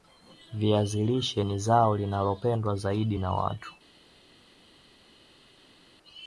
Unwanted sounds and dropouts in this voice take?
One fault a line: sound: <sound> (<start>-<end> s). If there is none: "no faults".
no faults